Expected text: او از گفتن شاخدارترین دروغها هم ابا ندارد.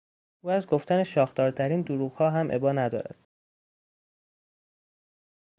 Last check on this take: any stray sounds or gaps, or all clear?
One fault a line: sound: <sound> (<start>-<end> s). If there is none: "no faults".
no faults